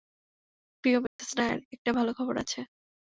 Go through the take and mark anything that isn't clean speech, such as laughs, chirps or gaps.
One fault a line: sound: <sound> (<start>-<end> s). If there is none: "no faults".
sound: dropout (1.1-1.2 s)